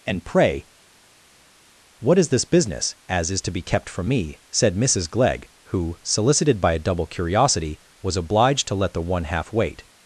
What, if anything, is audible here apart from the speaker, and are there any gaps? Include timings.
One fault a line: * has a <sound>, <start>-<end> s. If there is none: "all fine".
all fine